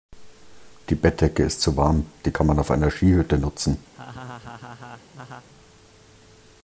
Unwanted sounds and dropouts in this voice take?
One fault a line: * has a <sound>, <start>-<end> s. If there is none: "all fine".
* has a laugh, 3.9-5.5 s